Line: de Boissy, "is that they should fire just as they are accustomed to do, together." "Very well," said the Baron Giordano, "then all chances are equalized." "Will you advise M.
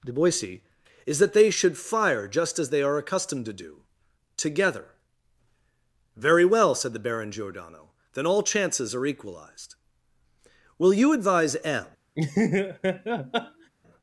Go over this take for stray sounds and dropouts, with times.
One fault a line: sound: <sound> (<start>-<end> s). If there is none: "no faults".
sound: laugh (12.1-13.7 s)